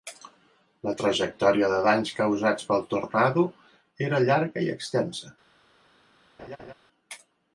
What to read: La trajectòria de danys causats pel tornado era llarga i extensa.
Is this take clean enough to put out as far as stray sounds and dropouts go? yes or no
no